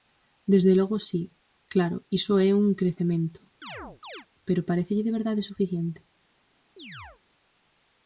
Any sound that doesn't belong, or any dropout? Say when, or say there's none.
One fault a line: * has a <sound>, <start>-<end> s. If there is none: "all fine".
* has a chirp, 3.6-4.3 s
* has a chirp, 6.8-7.2 s